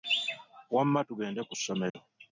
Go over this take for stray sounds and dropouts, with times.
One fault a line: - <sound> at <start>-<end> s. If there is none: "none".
- dropout at 1.9-1.9 s